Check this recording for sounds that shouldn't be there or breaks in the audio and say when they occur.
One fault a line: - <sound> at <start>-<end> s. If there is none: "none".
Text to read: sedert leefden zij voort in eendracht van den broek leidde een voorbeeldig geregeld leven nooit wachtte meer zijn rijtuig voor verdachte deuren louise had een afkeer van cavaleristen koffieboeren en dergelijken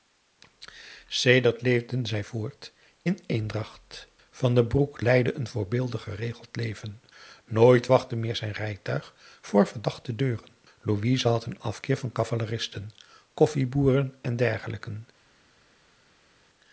none